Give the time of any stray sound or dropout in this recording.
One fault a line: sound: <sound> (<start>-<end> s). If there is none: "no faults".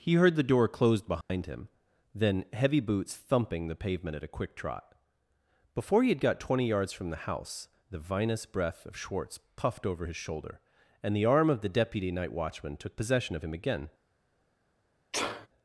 sound: dropout (1.2-1.3 s)
sound: sneeze (15.1-15.5 s)